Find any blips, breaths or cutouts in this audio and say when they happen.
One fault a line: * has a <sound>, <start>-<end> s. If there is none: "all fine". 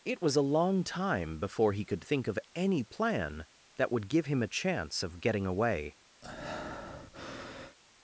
* has a breath, 6.2-7.8 s